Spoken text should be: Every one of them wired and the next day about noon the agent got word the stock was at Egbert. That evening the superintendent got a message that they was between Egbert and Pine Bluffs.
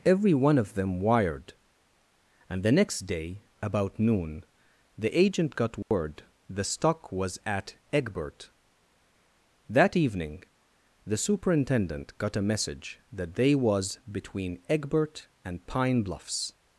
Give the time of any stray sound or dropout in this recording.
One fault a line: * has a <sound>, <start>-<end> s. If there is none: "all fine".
* has a dropout, 5.8-5.9 s